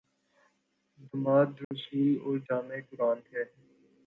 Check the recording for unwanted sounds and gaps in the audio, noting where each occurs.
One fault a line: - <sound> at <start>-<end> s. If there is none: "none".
- dropout at 1.6-1.7 s